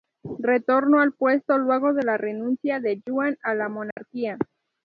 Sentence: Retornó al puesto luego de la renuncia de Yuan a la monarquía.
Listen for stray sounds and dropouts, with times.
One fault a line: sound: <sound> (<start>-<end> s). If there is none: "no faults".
sound: dropout (3.9-4.0 s)